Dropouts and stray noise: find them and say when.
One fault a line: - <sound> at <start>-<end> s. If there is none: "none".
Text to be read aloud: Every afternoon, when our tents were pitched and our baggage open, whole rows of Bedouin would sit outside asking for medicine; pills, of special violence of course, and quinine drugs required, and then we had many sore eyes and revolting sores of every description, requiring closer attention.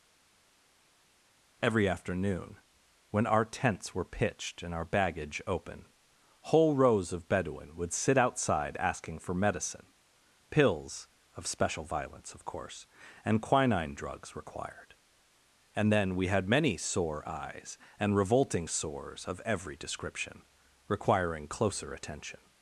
none